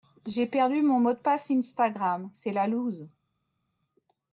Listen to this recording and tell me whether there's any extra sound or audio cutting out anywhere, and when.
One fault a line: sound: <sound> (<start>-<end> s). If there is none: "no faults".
no faults